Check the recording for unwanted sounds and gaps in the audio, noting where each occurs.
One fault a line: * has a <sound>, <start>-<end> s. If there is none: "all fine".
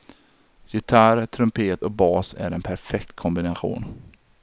all fine